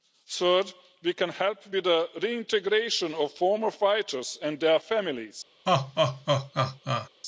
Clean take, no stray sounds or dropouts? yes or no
no